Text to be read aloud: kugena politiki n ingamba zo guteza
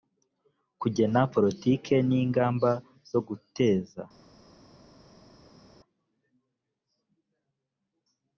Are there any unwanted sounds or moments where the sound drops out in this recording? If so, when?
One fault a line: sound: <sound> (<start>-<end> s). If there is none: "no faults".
no faults